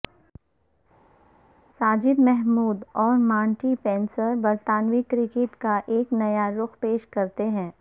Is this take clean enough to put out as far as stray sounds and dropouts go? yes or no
yes